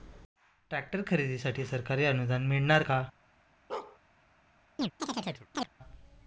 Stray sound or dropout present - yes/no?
yes